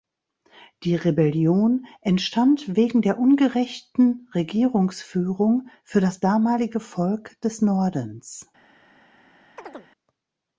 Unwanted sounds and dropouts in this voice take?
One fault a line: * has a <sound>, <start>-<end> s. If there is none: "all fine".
* has a chirp, 9.6-9.9 s